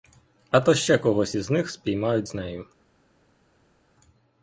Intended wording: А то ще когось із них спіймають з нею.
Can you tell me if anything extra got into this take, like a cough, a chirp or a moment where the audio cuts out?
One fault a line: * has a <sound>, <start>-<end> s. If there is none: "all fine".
all fine